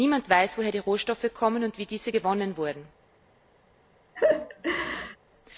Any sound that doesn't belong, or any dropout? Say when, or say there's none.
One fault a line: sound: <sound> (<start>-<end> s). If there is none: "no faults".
sound: laugh (4.2-5.2 s)